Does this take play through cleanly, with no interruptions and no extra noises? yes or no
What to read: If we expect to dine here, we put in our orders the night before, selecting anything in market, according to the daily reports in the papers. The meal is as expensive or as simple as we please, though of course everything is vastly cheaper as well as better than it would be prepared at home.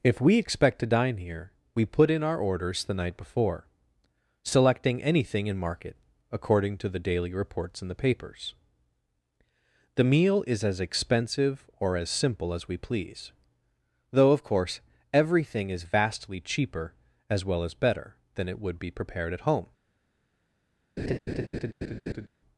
no